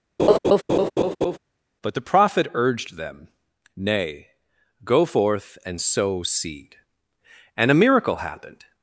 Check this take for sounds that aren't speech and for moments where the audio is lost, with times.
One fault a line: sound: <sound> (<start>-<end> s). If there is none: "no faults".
sound: laugh (0.2-1.4 s)